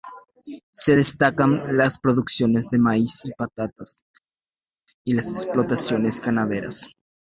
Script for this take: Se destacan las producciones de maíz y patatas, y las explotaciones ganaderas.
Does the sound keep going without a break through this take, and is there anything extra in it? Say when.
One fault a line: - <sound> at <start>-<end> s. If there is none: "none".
none